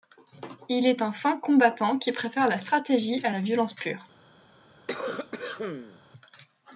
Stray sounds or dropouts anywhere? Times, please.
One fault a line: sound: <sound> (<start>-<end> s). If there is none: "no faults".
sound: cough (4.9-6.0 s)